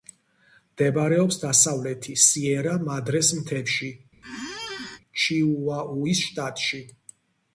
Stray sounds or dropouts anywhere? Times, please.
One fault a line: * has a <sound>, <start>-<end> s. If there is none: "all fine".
* has a squeak, 4.2-5.0 s